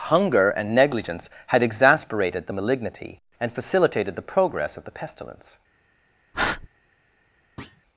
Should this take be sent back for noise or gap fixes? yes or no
yes